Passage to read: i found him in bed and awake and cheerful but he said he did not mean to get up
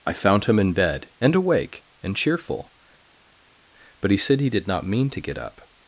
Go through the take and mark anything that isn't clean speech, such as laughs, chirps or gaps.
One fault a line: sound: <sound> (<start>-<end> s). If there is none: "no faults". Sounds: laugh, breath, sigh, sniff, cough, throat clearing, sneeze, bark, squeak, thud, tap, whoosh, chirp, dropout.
no faults